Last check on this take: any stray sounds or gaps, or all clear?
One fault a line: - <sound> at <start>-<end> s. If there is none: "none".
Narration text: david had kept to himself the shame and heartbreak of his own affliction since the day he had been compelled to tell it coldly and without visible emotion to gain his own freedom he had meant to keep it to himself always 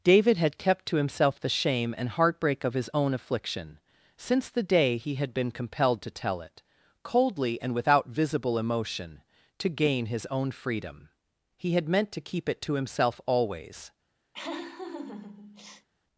- laugh at 14.3-15.9 s